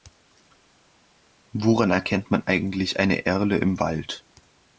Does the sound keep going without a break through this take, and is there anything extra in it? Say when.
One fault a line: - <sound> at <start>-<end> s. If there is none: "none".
none